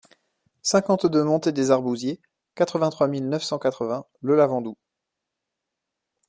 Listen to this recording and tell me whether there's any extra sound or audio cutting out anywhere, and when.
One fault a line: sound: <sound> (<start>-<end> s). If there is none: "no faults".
no faults